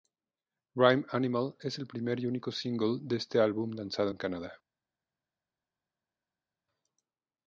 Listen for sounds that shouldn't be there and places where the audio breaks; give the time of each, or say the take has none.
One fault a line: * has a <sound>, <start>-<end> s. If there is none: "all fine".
all fine